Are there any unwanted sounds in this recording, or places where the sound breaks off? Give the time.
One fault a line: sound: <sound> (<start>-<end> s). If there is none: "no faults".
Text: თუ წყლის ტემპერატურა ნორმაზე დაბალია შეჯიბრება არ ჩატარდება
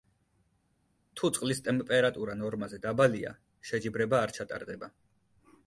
no faults